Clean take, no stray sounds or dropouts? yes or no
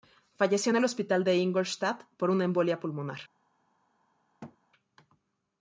no